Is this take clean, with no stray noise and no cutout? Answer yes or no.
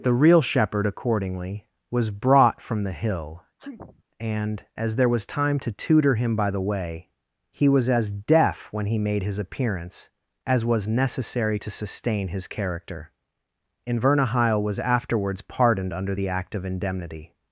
no